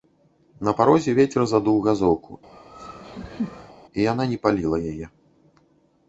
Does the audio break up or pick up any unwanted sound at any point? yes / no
yes